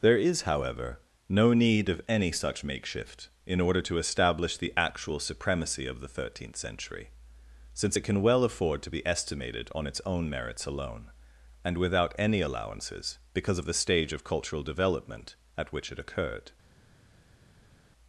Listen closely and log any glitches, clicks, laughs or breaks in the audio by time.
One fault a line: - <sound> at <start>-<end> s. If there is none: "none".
none